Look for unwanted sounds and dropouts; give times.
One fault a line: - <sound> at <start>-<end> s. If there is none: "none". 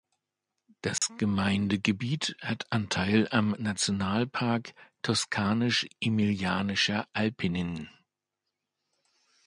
- dropout at 1.0-1.0 s